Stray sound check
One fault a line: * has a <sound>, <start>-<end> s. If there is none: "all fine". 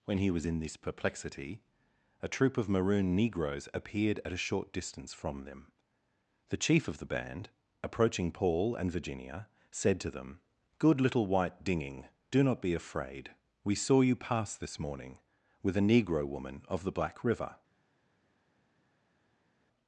all fine